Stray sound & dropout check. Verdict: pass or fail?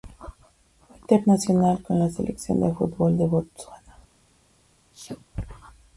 fail